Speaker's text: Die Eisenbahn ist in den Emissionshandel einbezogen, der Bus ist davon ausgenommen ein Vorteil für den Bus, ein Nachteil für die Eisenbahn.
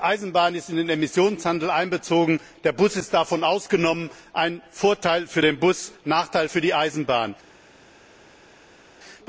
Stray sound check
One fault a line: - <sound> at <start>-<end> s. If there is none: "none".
none